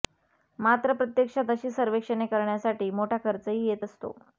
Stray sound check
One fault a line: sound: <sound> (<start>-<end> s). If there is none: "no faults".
no faults